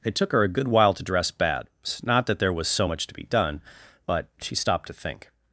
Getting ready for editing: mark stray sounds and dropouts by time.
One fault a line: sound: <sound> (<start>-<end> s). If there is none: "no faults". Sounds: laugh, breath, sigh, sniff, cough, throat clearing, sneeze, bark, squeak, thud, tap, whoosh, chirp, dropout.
no faults